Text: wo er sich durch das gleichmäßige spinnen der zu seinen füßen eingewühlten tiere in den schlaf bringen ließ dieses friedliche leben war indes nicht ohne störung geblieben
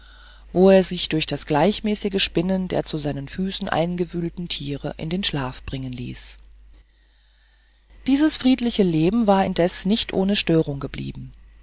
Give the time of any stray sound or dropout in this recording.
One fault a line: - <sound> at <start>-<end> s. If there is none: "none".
none